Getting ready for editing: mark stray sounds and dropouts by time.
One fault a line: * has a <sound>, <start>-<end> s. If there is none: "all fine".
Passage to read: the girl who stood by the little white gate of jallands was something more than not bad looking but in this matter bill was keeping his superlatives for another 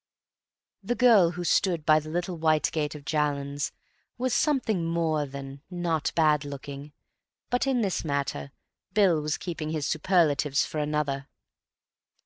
all fine